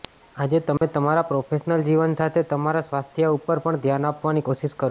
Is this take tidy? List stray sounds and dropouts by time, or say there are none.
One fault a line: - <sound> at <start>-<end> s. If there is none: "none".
- dropout at 0.8-0.8 s